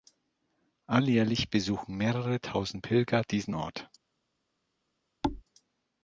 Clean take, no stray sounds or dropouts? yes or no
no